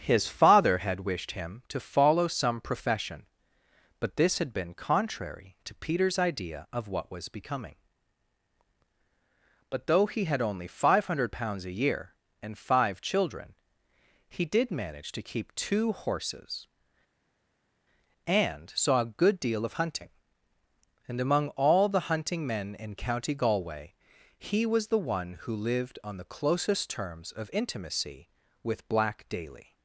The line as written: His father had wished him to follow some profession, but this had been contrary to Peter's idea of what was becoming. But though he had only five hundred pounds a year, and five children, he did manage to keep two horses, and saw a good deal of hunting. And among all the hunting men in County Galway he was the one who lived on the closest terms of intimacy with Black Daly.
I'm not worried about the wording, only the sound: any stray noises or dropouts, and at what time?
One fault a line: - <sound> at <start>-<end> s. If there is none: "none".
none